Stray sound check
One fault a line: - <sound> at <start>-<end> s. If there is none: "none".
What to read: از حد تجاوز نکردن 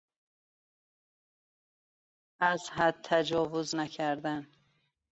none